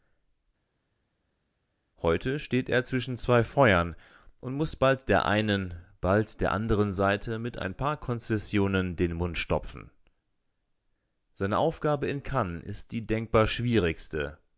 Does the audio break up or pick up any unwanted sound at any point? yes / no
no